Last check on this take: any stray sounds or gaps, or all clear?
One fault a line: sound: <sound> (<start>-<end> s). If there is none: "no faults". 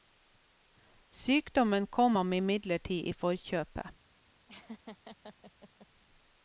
sound: laugh (4.5-5.9 s)